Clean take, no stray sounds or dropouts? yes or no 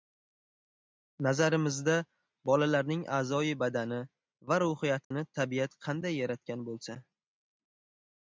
no